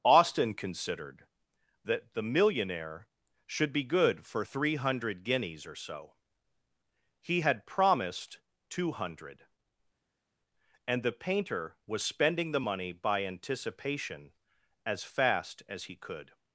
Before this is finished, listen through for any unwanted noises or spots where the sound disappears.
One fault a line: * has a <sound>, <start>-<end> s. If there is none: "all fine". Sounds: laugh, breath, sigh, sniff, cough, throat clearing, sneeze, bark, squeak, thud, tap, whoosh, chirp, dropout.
all fine